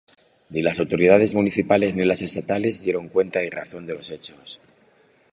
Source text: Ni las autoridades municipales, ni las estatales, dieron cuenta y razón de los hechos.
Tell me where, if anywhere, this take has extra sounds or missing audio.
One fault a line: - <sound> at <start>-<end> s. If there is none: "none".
none